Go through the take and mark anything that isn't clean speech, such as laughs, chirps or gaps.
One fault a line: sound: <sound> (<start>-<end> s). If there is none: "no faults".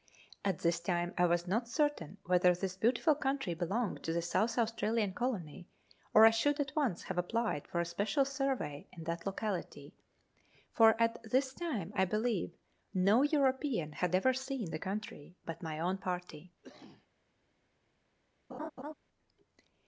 sound: cough (16.6-17.1 s)
sound: laugh (18.5-18.9 s)